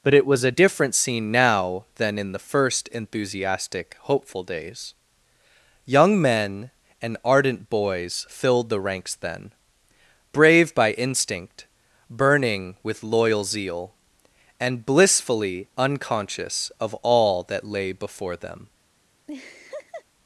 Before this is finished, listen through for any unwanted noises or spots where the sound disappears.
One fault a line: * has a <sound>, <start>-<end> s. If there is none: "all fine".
* has a laugh, 19.3-20.0 s